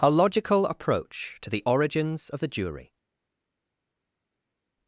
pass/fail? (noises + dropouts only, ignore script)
pass